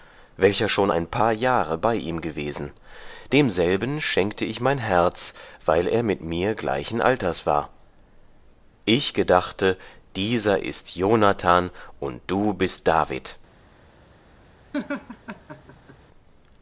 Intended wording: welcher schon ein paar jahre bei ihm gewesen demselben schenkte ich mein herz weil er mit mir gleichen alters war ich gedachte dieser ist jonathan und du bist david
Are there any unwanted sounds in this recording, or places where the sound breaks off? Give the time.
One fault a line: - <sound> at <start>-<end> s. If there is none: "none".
- laugh at 14.7-16.0 s